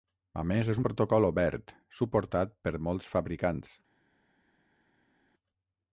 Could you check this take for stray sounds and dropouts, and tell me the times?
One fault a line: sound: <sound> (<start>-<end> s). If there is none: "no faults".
no faults